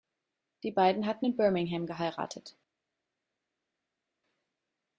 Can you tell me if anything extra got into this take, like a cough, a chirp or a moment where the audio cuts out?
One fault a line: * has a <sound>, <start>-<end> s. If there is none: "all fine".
all fine